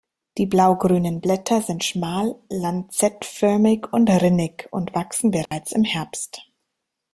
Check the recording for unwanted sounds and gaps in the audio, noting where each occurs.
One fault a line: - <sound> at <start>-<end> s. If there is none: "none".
- dropout at 5.5-5.5 s